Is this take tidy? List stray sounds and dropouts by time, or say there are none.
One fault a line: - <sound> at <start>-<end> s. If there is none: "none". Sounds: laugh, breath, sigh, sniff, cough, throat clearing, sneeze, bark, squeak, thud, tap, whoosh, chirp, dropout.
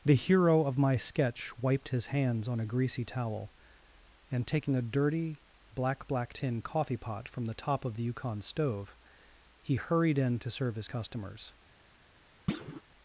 - thud at 12.5-12.8 s